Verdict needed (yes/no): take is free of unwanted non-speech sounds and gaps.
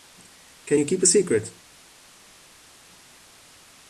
yes